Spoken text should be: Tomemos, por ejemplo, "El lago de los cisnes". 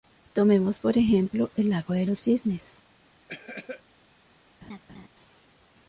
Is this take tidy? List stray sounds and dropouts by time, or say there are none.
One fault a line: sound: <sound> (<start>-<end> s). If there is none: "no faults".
sound: cough (3.3-3.8 s)
sound: laugh (4.6-5.1 s)